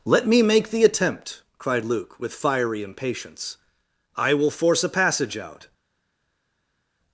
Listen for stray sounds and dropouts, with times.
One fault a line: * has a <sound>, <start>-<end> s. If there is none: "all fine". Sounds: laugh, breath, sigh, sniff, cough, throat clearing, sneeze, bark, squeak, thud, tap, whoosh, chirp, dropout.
all fine